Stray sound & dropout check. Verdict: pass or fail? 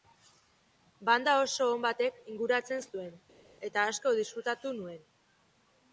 pass